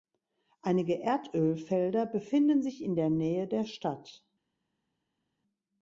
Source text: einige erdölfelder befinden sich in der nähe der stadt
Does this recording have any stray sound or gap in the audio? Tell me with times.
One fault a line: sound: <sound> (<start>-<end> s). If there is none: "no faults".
no faults